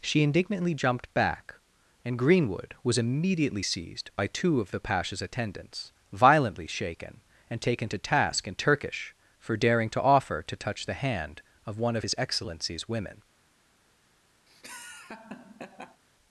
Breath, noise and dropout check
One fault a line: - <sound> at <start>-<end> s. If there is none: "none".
- laugh at 14.5-16.0 s